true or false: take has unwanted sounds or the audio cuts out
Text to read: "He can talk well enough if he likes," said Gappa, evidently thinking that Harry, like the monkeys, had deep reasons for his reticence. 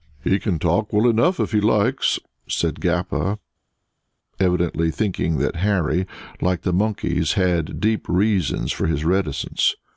false